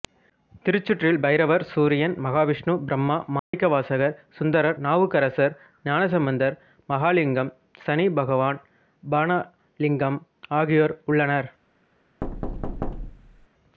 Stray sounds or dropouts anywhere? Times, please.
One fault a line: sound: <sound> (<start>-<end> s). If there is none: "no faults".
sound: dropout (3.4-3.5 s)
sound: thud (12.2-13.5 s)